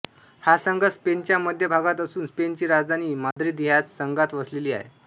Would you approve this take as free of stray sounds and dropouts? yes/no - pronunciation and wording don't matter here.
no